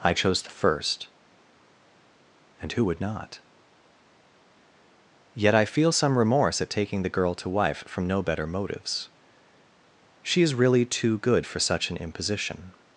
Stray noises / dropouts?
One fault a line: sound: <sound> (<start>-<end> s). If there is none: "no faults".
no faults